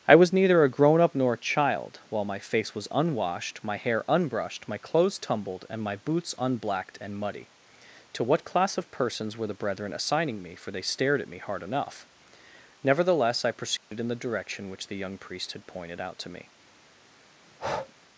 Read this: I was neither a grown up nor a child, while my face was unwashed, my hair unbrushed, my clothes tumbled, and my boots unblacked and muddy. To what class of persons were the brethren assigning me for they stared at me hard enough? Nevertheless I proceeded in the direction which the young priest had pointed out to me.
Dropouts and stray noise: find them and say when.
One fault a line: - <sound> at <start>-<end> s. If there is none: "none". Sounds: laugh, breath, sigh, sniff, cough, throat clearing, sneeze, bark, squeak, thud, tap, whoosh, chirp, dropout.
- dropout at 13.8-13.9 s
- breath at 17.4-17.9 s